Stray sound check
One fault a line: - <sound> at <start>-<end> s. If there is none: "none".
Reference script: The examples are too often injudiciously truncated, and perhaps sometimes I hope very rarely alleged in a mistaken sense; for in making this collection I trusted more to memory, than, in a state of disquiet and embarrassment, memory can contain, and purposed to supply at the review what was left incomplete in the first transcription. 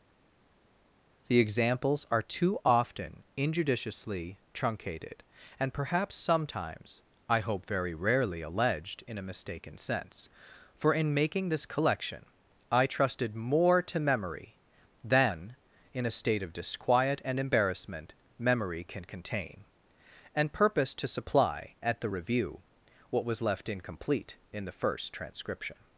none